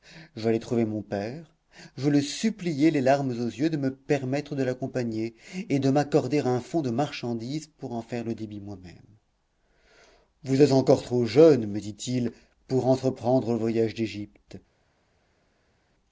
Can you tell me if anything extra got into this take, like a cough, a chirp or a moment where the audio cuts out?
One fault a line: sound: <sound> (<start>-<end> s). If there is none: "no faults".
no faults